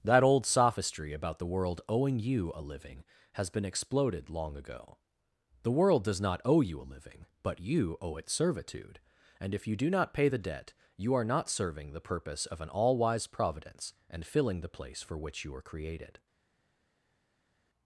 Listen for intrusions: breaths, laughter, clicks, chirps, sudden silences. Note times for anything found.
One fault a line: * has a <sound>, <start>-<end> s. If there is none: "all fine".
all fine